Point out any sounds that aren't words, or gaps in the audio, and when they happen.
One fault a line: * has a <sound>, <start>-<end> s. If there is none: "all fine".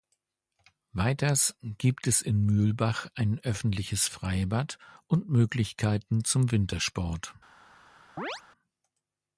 * has a chirp, 8.2-8.4 s